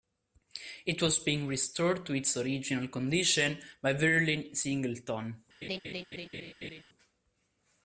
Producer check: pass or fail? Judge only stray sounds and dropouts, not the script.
fail